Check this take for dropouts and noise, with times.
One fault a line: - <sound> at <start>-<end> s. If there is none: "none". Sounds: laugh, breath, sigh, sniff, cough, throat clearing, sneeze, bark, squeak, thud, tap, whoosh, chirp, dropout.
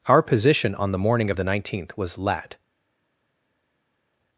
none